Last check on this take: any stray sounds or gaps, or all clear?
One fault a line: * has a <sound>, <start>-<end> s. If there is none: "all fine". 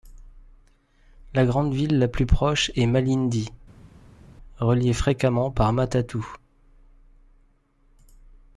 all fine